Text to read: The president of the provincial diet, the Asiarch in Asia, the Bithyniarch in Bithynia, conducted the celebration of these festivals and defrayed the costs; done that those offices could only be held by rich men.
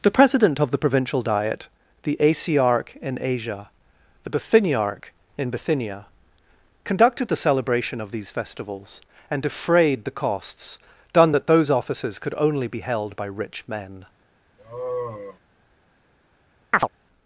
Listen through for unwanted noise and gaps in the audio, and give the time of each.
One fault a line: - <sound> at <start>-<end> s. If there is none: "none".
- sigh at 14.6-15.4 s
- chirp at 16.7-16.9 s